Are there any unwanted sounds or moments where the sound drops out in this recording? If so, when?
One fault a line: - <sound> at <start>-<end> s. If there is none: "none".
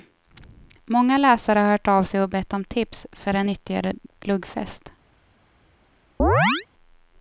- chirp at 6.2-6.7 s